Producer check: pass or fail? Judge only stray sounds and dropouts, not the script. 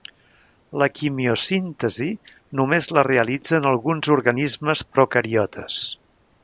pass